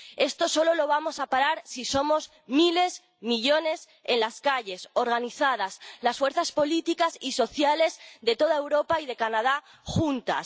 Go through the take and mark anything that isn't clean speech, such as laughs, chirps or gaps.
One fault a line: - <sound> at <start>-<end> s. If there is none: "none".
none